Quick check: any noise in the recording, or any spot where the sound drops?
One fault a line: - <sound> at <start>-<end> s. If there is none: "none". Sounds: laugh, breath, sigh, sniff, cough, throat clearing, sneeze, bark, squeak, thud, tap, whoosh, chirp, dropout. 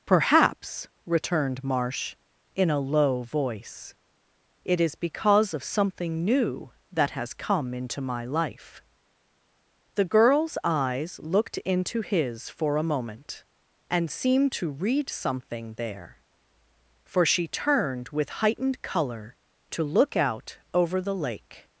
none